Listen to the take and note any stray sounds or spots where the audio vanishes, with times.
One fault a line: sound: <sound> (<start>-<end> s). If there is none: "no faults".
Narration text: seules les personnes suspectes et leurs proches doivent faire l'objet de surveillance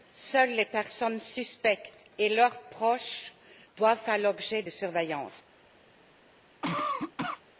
sound: cough (6.6-7.4 s)